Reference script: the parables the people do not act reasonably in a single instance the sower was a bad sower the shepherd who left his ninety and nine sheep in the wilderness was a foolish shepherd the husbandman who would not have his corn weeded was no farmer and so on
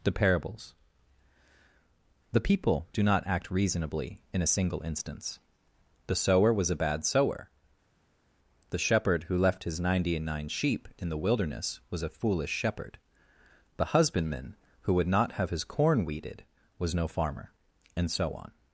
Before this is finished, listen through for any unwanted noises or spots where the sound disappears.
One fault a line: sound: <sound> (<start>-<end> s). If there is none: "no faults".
no faults